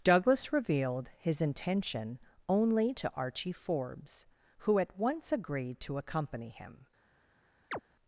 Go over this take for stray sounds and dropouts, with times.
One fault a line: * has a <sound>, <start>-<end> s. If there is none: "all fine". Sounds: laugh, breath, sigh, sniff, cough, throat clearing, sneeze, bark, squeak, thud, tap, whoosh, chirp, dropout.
* has a chirp, 7.7-7.8 s